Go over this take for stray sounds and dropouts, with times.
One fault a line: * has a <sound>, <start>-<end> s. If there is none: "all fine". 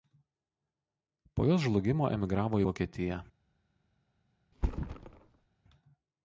* has a thud, 4.5-5.5 s